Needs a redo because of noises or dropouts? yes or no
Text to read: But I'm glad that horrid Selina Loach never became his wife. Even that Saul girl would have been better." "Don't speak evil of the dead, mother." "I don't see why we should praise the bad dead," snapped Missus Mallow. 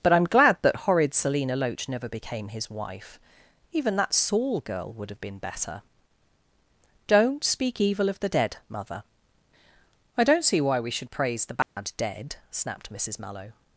yes